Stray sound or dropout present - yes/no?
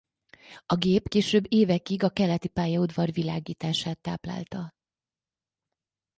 no